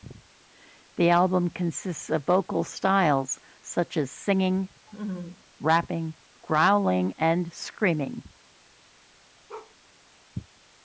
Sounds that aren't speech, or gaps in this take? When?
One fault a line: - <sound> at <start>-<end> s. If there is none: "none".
- laugh at 4.9-5.4 s
- bark at 9.5-9.8 s